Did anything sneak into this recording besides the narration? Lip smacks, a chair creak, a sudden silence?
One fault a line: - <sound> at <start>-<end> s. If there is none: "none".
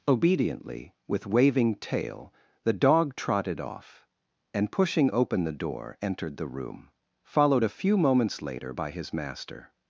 none